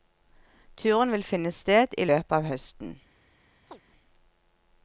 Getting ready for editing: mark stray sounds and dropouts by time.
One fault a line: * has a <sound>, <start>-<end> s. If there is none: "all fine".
* has a chirp, 3.7-3.8 s